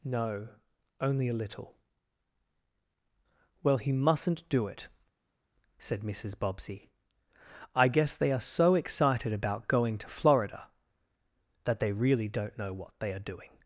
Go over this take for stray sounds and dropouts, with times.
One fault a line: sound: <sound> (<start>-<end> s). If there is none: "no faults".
no faults